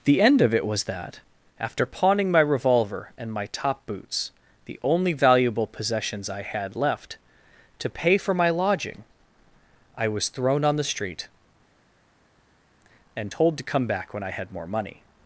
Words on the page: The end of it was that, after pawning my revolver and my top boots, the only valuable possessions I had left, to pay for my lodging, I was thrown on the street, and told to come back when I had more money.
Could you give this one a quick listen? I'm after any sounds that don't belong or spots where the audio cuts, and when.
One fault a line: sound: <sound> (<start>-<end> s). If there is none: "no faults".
no faults